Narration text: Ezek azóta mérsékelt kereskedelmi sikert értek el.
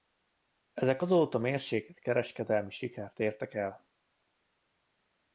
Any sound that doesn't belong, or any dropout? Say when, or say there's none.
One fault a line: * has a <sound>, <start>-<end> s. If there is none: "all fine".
all fine